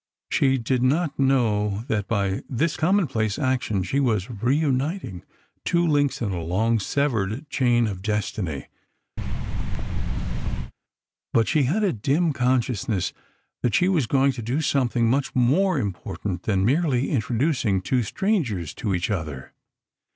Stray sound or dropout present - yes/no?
yes